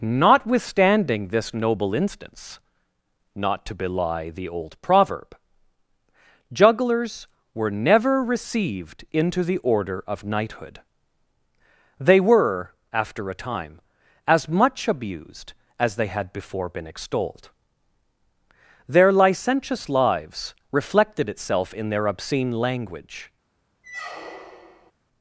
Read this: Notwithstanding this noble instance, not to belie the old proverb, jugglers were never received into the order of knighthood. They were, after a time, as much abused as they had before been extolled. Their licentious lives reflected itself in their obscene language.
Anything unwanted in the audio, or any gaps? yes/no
yes